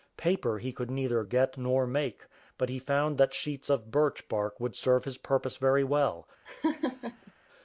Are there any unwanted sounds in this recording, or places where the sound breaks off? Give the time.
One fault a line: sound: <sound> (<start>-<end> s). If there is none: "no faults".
sound: laugh (6.5-7.3 s)